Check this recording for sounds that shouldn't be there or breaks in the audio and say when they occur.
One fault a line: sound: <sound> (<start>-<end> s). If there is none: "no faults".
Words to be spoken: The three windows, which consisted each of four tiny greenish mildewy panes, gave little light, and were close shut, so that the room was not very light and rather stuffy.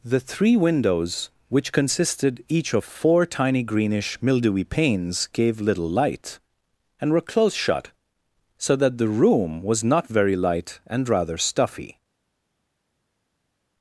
no faults